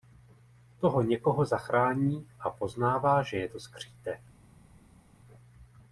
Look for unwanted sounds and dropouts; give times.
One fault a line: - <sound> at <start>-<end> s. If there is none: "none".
none